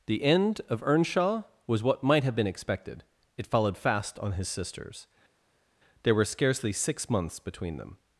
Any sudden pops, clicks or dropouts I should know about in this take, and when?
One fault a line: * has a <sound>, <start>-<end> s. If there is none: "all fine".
all fine